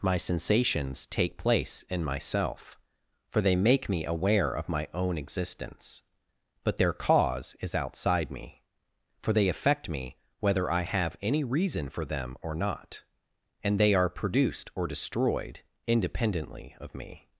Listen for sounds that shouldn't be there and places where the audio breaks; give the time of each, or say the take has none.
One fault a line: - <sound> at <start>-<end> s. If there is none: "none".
none